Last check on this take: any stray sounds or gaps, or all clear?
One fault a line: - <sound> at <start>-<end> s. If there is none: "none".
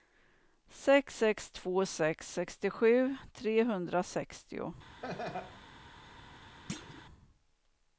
- laugh at 5.0-5.6 s
- thud at 6.7-7.0 s